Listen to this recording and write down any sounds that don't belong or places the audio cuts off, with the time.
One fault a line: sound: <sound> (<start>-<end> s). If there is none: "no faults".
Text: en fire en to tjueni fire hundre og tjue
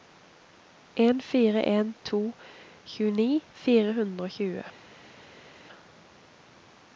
no faults